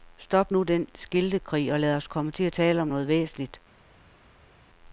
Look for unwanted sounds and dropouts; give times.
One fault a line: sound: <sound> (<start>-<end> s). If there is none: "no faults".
no faults